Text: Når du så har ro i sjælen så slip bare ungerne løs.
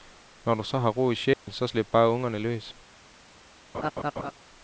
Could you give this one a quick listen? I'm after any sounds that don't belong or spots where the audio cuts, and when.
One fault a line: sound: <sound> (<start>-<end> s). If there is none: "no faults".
sound: dropout (1.3-1.5 s)
sound: laugh (3.7-4.3 s)